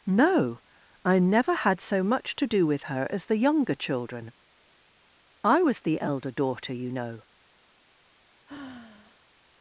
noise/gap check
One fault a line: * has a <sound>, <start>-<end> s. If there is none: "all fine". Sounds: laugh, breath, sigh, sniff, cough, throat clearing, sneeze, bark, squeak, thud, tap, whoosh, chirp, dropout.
* has a sigh, 8.5-9.3 s